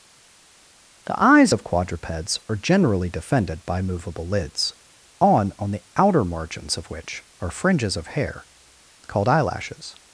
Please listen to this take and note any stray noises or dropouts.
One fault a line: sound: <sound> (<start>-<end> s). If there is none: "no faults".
no faults